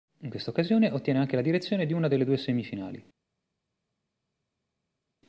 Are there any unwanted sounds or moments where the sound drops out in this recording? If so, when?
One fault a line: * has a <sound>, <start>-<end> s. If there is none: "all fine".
all fine